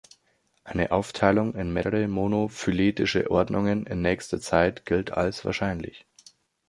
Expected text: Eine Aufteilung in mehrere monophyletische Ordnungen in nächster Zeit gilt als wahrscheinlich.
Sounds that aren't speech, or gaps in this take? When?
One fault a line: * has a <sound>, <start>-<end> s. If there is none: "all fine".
all fine